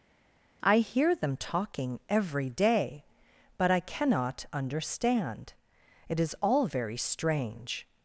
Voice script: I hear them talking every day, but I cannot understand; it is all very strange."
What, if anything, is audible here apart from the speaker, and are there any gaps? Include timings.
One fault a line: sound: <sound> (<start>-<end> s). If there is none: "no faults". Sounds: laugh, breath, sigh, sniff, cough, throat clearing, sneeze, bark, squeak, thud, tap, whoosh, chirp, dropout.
no faults